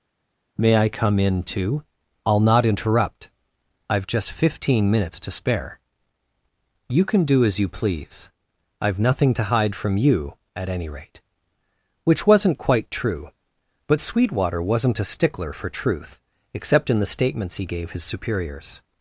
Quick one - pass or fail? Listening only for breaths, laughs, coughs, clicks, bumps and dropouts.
pass